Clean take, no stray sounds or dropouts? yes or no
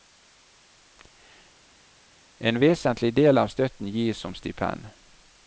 yes